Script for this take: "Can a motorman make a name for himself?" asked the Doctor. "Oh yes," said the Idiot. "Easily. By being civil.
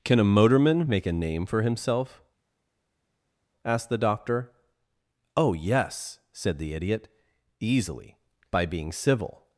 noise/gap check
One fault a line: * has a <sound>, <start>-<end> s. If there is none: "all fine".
all fine